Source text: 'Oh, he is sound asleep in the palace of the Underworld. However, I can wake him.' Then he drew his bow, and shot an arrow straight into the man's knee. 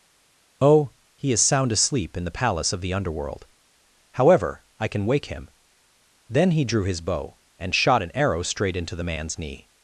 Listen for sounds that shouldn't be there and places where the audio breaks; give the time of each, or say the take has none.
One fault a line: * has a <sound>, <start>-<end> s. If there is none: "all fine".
all fine